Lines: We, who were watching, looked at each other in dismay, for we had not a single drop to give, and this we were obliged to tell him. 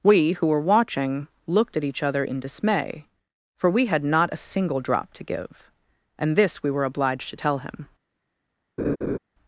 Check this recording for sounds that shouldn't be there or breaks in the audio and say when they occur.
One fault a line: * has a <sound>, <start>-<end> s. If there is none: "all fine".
* has a laugh, 8.8-9.2 s